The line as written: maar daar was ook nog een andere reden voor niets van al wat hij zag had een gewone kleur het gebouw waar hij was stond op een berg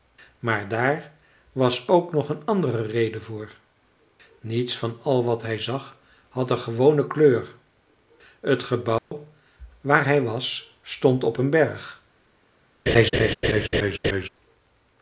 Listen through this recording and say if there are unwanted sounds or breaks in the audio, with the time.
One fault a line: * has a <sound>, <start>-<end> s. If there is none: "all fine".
* has a dropout, 9.0-9.1 s
* has a laugh, 12.9-14.3 s